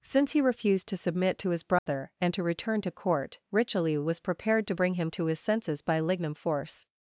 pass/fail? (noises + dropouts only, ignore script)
fail